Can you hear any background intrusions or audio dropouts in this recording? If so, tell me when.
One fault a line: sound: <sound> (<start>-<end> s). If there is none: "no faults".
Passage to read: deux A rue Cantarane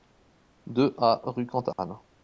sound: dropout (1.7-1.8 s)